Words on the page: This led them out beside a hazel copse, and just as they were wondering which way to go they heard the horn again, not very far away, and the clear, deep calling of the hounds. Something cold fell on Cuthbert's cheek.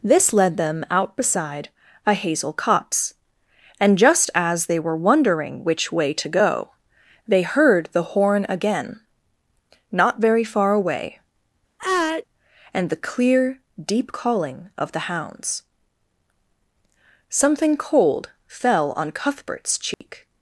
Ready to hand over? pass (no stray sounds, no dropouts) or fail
fail